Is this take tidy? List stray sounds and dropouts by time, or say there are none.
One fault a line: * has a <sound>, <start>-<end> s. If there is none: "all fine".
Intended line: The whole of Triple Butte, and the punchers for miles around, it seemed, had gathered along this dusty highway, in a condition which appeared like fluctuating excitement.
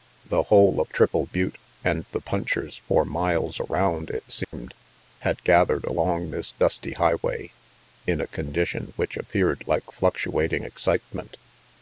* has a dropout, 4.4-4.5 s